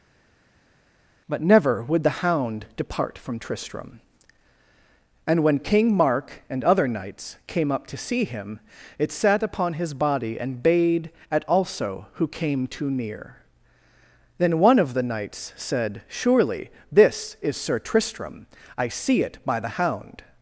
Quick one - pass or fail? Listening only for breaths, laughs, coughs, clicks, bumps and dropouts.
pass